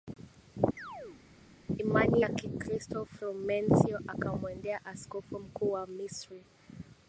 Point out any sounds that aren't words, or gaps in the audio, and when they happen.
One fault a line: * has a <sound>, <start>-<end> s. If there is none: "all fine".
* has a chirp, 0.8-1.2 s